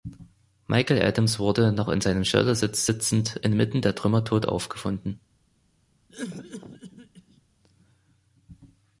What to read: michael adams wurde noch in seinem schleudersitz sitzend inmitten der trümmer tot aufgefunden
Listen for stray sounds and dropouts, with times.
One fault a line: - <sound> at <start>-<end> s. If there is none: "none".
- cough at 6.1-7.4 s